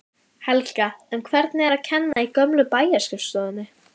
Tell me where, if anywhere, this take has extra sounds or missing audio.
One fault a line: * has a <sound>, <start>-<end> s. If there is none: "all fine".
* has a dropout, 2.1-2.2 s